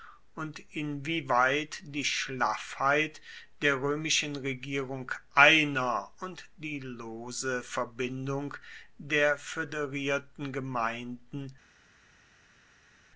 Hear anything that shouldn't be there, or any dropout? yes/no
no